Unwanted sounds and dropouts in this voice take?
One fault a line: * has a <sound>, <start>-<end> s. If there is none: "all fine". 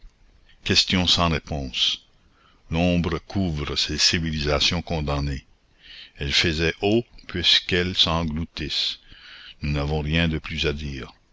all fine